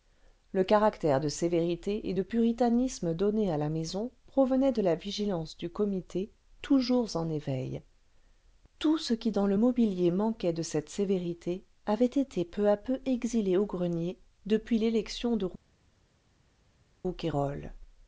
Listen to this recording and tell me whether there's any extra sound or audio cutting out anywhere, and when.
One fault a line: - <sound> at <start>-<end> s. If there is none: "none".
none